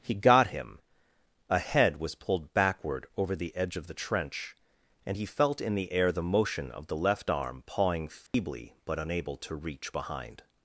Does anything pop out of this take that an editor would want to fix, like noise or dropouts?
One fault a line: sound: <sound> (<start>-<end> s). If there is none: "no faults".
sound: dropout (8.3-8.3 s)